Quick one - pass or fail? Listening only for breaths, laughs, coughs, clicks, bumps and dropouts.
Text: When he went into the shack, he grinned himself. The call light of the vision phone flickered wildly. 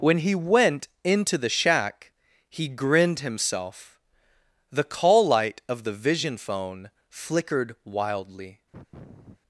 fail